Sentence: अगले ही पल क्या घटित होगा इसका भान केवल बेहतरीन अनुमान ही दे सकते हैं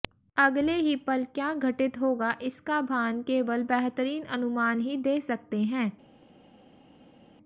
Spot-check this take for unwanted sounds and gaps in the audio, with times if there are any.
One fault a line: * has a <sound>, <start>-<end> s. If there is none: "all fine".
all fine